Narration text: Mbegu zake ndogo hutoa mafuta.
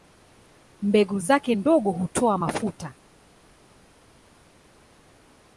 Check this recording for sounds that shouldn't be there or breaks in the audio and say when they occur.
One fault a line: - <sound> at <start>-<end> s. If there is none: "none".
none